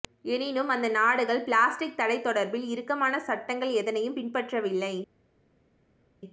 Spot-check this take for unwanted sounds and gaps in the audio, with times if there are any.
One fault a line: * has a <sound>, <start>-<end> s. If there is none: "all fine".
all fine